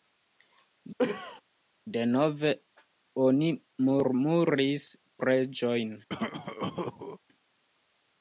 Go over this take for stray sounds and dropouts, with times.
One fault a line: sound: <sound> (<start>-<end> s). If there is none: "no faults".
sound: cough (1.0-1.4 s)
sound: cough (6.1-7.2 s)